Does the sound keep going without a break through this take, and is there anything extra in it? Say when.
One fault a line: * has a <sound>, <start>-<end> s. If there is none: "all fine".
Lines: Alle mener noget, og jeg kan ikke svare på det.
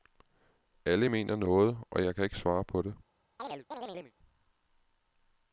* has a chirp, 3.4-4.1 s